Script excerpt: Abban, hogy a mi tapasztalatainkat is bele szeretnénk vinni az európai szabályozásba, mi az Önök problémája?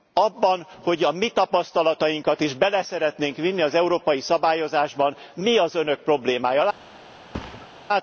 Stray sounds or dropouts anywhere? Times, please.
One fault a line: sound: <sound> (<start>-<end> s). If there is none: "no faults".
sound: thud (7.3-7.7 s)